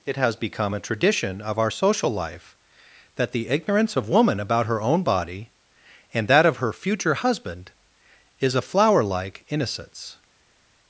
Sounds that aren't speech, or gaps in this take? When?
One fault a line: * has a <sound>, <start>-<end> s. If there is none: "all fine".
all fine